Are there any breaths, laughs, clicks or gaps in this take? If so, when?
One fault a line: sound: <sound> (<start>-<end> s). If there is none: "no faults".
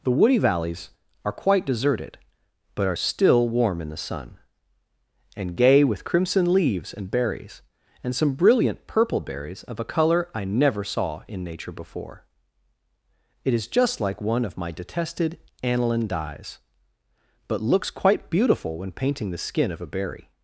no faults